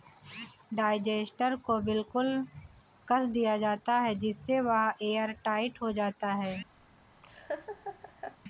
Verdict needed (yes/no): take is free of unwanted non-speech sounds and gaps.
no